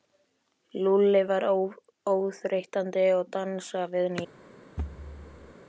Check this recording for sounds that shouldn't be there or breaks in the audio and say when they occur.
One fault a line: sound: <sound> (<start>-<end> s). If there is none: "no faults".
sound: thud (4.8-5.5 s)